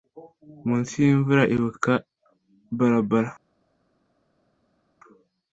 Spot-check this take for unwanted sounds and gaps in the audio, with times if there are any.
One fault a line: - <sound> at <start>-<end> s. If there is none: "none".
none